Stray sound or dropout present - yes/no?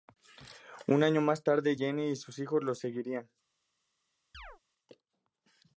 yes